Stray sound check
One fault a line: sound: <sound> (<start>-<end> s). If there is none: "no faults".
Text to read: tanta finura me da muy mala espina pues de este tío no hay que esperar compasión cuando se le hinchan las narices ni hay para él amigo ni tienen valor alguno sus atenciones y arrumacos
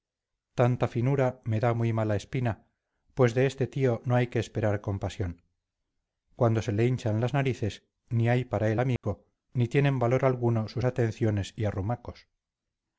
sound: dropout (9.0-9.0 s)